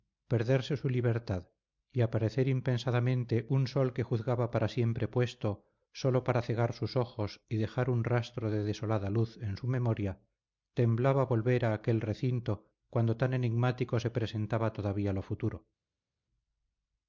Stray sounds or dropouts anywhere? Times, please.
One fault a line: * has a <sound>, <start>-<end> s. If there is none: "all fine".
all fine